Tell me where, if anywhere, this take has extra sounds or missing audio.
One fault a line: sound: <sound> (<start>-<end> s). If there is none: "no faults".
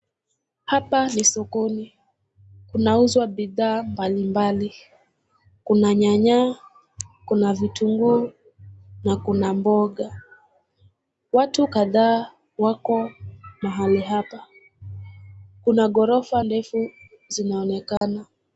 sound: dropout (18.0-18.0 s)